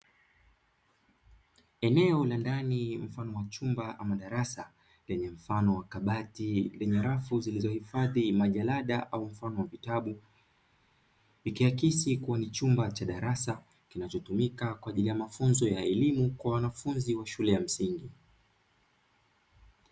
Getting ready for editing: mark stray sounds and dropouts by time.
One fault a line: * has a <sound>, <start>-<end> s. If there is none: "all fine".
all fine